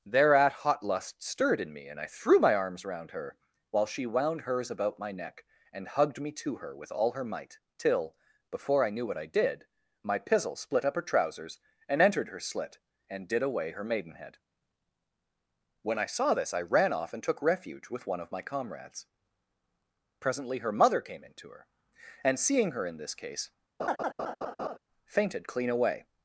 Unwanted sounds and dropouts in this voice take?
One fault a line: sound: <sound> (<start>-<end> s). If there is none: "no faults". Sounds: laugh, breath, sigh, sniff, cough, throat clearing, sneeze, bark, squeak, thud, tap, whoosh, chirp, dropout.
sound: laugh (23.8-24.8 s)